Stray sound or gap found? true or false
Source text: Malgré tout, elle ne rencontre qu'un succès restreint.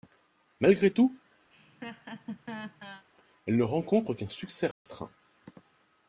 true